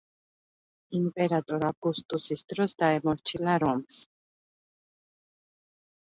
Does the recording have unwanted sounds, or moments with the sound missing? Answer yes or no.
no